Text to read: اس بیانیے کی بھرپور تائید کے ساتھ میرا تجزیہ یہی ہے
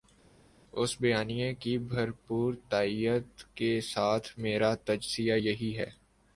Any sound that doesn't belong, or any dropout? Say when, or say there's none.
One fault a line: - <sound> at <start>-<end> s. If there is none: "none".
none